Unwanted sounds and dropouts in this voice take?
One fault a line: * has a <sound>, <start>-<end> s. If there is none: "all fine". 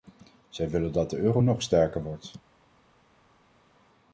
all fine